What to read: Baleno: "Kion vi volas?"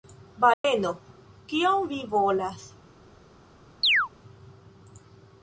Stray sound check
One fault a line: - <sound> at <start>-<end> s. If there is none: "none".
- dropout at 0.5-0.6 s
- chirp at 3.8-4.1 s